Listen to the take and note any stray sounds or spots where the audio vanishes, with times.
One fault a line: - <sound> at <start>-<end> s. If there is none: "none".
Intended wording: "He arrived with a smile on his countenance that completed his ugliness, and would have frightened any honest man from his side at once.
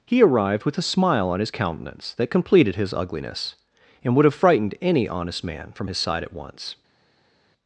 none